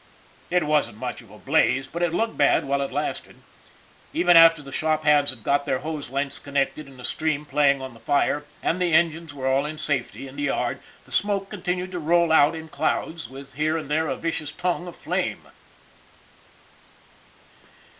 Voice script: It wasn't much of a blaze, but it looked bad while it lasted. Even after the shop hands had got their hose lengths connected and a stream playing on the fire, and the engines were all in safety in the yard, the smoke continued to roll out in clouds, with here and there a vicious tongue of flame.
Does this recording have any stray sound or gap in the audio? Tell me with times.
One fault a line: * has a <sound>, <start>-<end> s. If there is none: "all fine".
all fine